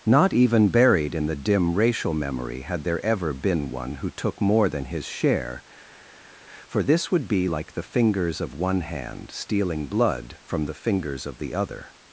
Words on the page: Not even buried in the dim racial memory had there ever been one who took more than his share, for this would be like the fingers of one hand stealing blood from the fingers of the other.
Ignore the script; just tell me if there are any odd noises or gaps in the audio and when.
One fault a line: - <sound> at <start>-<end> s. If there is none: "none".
none